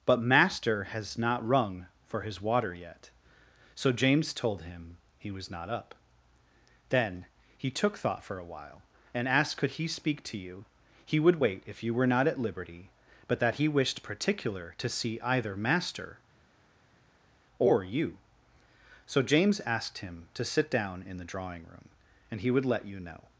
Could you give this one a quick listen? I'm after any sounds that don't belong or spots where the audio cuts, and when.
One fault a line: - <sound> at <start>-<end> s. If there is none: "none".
none